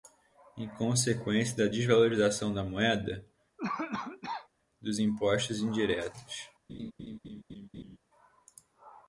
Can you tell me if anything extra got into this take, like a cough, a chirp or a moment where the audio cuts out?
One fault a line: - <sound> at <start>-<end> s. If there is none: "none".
- cough at 3.6-4.5 s
- laugh at 6.7-8.0 s